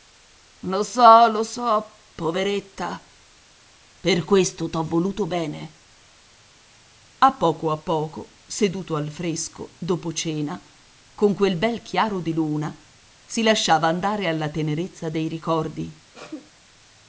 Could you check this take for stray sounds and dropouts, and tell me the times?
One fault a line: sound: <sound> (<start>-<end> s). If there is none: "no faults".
sound: sneeze (16.1-16.5 s)